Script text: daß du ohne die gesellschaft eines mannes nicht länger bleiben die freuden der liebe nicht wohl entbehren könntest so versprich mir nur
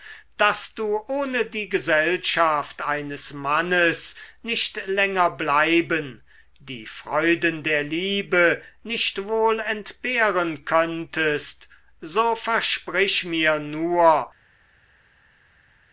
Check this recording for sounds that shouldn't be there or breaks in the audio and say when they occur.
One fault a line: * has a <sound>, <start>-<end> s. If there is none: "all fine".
all fine